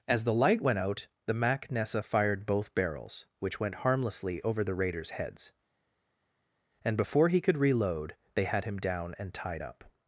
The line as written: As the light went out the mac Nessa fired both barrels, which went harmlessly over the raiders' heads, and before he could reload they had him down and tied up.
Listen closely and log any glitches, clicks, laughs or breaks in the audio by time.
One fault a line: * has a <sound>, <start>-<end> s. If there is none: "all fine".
all fine